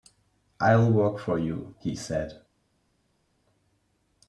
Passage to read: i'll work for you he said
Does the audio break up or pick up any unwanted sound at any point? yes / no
no